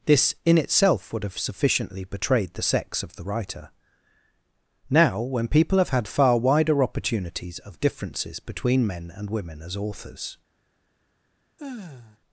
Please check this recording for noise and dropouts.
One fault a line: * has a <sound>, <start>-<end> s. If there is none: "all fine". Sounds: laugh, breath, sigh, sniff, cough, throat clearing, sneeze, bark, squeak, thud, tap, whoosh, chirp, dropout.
* has a sigh, 11.6-12.2 s